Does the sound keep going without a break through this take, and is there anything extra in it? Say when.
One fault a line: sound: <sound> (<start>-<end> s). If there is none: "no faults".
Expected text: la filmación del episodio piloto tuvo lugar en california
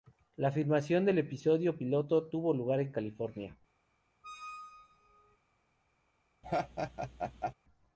sound: squeak (4.2-5.4 s)
sound: laugh (6.4-7.5 s)